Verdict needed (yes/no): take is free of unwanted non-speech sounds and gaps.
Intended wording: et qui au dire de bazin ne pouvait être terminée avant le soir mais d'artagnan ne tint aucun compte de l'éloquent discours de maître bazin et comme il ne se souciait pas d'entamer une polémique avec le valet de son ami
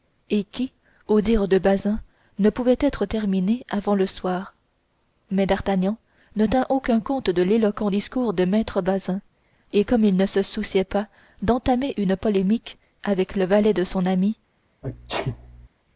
no